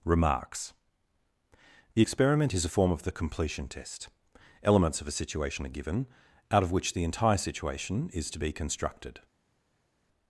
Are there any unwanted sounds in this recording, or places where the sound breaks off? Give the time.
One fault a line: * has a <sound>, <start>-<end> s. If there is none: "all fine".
all fine